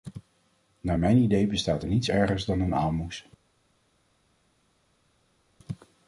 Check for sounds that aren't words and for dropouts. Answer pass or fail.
pass